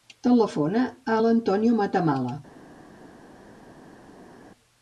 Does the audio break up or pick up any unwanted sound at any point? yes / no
no